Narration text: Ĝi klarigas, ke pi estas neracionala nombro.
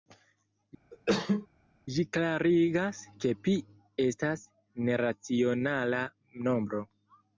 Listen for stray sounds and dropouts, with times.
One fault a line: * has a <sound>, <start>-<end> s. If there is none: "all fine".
* has a cough, 0.9-1.5 s